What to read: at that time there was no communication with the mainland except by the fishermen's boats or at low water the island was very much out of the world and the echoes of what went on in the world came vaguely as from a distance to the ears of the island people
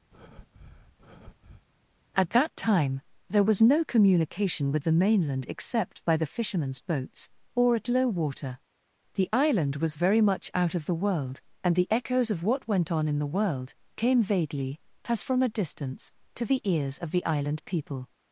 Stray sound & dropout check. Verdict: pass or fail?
fail